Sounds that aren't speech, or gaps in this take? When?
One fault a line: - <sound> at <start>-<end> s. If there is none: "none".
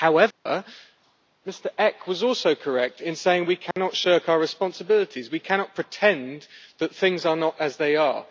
- dropout at 0.3-0.5 s
- dropout at 3.7-3.8 s